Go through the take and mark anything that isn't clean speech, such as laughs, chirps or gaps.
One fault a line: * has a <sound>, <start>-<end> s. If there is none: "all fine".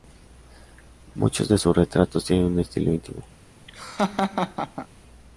* has a laugh, 3.7-4.9 s